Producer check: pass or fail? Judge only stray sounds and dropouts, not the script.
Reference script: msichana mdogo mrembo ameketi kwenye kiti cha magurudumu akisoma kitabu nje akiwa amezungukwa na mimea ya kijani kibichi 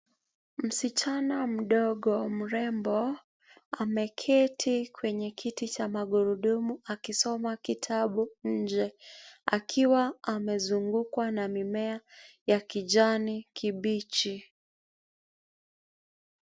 pass